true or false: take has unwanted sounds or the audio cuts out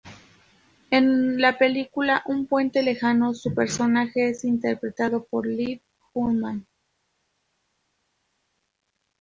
false